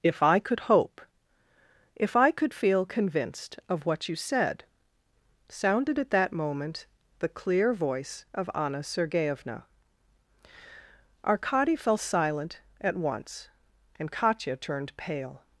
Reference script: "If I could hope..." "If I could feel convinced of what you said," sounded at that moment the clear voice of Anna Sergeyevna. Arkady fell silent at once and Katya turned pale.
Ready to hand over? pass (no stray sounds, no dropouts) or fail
pass